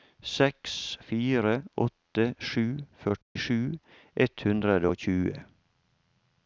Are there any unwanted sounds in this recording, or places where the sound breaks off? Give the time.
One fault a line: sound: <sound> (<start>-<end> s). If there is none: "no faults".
sound: dropout (3.2-3.4 s)